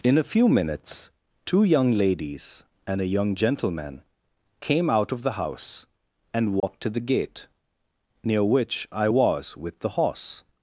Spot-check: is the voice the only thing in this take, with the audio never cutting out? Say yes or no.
no